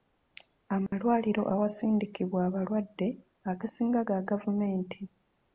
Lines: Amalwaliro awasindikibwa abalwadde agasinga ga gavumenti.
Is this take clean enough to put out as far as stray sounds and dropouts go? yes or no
no